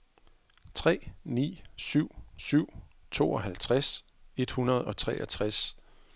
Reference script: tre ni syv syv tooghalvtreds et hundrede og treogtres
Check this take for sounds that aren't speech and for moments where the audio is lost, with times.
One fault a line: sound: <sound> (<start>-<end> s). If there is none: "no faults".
no faults